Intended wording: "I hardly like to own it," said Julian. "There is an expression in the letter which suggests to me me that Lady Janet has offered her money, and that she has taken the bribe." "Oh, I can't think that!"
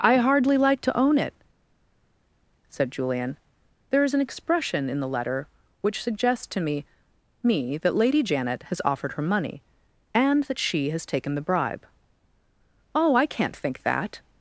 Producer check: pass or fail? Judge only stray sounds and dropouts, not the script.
pass